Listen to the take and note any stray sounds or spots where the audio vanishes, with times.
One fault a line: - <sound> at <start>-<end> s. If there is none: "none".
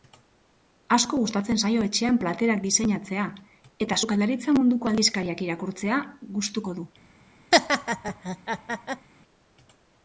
- laugh at 7.5-9.1 s